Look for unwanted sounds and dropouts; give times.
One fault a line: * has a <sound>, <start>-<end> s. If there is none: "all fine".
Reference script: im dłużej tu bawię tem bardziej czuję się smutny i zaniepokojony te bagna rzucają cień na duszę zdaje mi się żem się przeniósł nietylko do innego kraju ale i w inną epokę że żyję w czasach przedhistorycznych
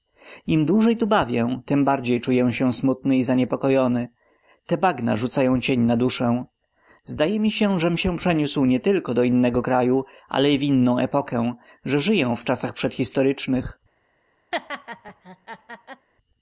* has a laugh, 14.5-16.1 s